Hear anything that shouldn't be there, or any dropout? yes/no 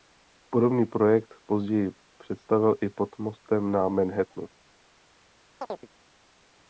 yes